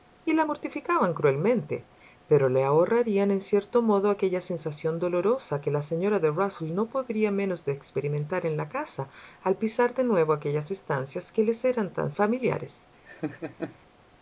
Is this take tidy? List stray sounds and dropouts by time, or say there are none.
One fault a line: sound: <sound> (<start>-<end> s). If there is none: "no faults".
sound: laugh (13.0-13.8 s)